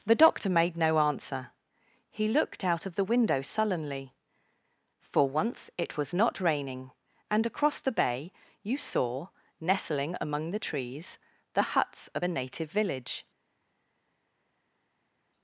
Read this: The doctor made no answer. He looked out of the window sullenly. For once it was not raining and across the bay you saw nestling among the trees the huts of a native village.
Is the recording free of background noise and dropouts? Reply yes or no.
yes